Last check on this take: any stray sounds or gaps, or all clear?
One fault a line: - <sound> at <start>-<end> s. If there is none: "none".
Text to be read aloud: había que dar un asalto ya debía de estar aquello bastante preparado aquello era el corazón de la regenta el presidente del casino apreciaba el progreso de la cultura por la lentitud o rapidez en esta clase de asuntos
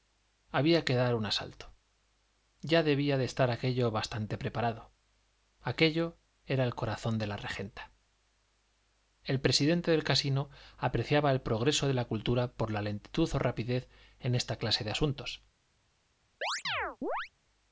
- chirp at 16.4-17.3 s